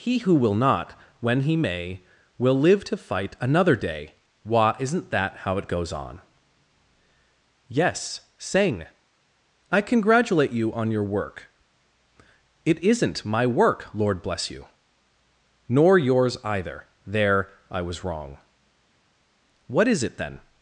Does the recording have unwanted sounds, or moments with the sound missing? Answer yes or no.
no